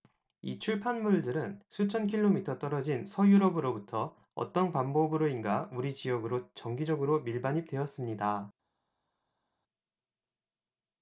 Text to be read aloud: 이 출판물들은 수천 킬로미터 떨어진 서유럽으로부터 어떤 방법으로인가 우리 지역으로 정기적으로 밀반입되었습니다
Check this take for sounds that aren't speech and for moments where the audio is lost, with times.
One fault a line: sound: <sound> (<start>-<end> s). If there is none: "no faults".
no faults